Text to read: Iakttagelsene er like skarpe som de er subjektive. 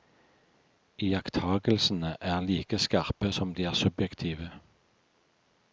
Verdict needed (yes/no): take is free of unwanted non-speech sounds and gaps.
yes